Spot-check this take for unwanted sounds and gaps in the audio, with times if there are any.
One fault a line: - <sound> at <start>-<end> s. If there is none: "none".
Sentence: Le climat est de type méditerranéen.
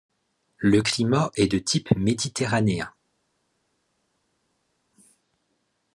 none